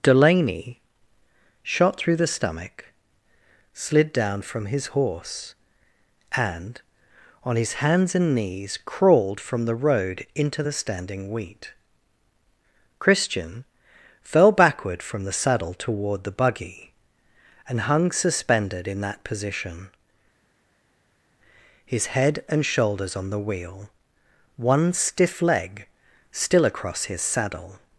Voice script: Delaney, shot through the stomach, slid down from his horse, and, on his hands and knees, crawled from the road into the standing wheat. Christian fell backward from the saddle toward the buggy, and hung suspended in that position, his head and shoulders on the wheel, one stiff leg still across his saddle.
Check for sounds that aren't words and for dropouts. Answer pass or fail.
pass